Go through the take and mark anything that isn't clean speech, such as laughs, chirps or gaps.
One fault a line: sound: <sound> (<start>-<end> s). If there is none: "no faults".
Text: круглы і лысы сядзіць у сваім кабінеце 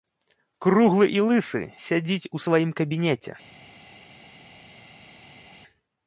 no faults